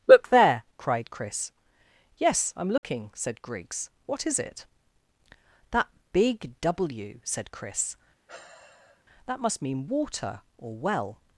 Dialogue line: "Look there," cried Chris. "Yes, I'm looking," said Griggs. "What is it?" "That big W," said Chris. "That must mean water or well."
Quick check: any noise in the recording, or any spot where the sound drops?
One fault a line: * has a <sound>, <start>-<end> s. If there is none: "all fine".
* has a dropout, 2.8-2.8 s
* has a sigh, 8.3-9.0 s